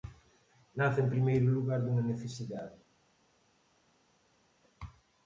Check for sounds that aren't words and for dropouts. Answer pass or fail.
pass